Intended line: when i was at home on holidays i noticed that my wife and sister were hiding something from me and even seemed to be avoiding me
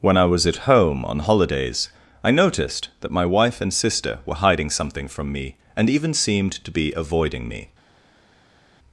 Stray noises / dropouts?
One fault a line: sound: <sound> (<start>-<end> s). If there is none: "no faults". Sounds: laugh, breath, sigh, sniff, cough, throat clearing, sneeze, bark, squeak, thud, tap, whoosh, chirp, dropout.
no faults